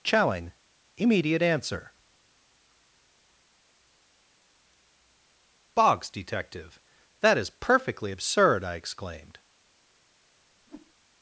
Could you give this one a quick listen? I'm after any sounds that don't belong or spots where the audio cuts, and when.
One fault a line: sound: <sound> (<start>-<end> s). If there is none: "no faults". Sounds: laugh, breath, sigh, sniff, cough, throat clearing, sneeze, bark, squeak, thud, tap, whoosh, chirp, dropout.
sound: whoosh (10.6-10.9 s)